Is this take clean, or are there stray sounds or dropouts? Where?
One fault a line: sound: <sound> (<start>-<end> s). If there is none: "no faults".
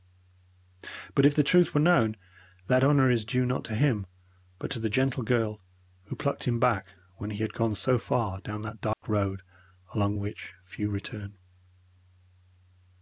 sound: dropout (8.9-9.0 s)